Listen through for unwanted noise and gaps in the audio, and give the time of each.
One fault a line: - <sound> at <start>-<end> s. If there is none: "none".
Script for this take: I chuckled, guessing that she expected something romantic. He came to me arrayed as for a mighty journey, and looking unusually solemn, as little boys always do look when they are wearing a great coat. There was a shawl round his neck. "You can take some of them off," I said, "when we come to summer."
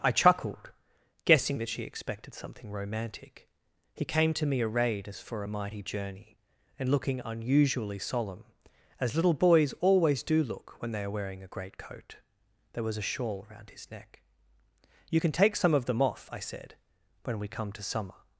none